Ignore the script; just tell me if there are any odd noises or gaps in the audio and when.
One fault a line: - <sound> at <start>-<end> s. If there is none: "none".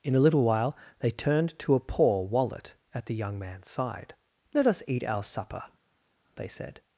none